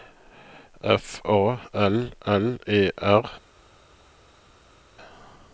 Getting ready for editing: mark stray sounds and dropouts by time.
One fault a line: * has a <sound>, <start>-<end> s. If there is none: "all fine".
all fine